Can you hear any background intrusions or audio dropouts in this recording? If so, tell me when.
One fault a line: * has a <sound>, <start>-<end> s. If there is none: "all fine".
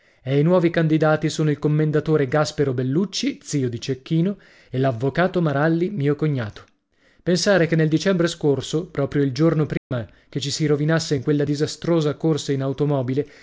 * has a dropout, 9.8-9.9 s